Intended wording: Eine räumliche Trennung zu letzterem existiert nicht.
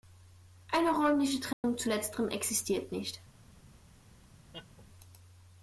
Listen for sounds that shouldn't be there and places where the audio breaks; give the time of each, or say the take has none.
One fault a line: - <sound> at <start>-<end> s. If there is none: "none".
- dropout at 1.5-1.6 s
- laugh at 4.5-4.9 s